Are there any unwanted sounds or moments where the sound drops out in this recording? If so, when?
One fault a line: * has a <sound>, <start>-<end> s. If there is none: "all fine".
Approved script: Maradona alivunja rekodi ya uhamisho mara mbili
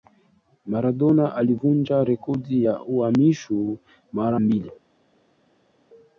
all fine